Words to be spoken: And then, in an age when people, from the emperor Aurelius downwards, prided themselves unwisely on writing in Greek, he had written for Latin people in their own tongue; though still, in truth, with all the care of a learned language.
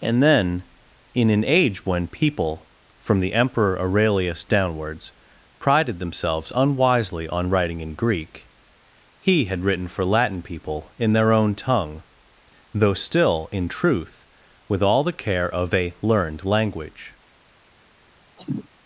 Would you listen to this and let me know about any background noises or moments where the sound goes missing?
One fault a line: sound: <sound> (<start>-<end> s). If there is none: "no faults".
sound: cough (18.4-18.7 s)